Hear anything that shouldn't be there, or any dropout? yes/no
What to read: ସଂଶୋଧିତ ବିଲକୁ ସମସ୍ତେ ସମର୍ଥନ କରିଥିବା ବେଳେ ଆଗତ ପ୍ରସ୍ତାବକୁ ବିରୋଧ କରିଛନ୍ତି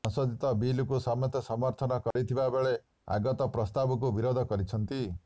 yes